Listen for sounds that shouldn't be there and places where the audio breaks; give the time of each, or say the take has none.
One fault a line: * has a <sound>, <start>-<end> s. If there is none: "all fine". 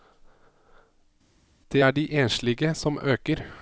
all fine